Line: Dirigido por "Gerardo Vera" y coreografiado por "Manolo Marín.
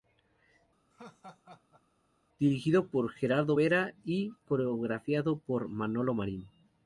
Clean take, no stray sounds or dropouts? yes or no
no